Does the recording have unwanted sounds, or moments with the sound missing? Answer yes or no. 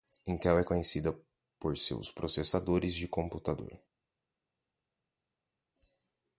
no